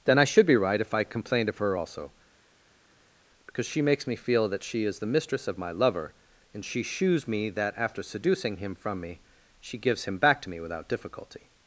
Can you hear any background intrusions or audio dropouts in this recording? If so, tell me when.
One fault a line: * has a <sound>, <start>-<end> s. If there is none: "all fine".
all fine